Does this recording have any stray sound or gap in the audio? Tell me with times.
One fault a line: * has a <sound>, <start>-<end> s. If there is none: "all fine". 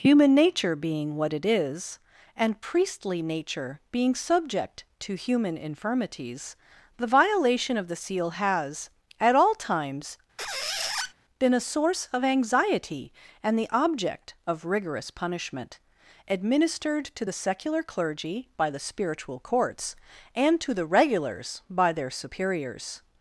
* has a squeak, 10.4-11.1 s